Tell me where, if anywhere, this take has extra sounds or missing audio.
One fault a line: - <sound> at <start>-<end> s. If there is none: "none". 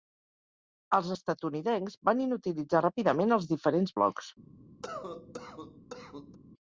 - cough at 4.8-6.4 s